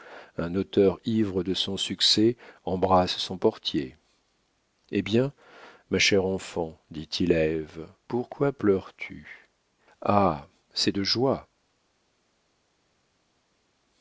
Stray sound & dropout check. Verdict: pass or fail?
pass